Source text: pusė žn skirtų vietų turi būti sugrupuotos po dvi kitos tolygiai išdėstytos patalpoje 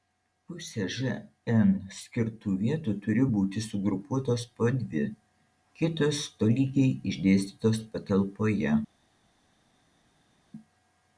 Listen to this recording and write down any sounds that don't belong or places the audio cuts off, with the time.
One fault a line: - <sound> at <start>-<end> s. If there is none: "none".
none